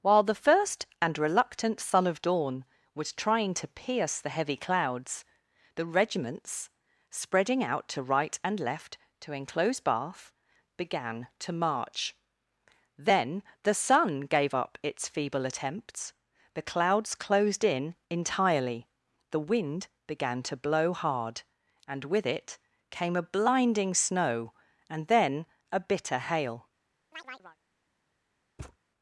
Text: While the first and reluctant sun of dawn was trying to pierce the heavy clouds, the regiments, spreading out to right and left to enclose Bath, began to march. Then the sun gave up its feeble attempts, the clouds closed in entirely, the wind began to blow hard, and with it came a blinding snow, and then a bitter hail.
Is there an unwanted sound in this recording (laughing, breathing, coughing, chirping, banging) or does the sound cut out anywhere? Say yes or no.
yes